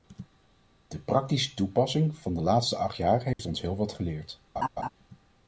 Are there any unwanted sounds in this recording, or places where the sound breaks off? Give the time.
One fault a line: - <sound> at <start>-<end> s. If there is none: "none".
- dropout at 3.3-3.4 s
- laugh at 4.6-4.9 s